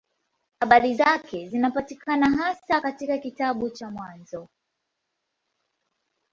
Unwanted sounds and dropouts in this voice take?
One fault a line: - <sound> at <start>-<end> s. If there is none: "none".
none